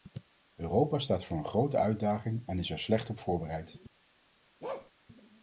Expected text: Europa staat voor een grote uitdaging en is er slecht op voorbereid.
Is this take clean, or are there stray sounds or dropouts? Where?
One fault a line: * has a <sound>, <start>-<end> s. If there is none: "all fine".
* has a bark, 4.6-4.9 s